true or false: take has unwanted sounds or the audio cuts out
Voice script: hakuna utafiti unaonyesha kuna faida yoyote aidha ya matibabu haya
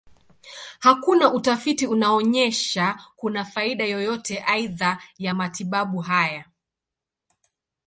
false